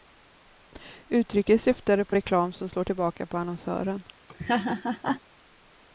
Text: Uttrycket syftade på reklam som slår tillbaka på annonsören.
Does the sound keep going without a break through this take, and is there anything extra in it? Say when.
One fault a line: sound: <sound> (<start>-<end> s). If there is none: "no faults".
sound: laugh (4.3-5.2 s)